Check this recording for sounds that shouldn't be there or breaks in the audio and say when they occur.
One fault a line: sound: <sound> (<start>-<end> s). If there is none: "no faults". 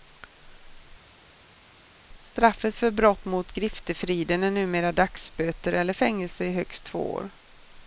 no faults